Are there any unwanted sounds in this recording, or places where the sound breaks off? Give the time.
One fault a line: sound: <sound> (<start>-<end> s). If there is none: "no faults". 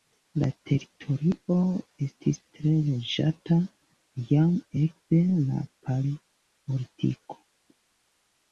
no faults